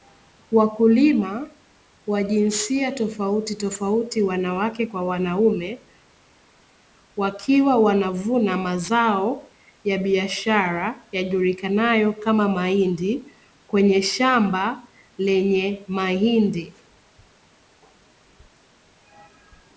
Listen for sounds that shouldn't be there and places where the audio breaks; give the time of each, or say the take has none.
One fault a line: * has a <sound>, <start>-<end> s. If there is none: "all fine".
all fine